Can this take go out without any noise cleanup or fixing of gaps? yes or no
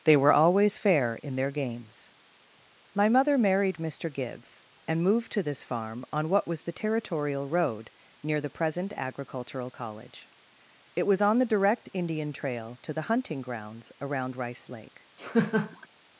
no